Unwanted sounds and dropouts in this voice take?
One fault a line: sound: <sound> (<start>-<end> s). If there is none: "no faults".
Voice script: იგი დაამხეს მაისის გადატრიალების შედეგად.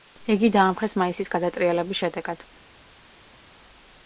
no faults